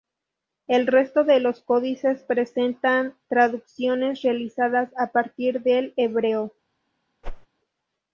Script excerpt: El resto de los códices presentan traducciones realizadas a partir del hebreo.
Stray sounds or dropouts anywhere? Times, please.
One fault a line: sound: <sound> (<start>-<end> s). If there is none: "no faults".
sound: whoosh (7.2-7.5 s)